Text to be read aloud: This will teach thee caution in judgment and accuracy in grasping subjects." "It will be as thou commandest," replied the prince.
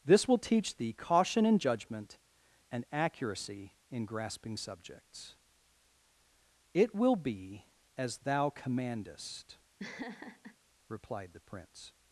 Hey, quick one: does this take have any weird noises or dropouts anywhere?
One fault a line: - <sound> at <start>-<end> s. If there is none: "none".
- laugh at 9.8-10.6 s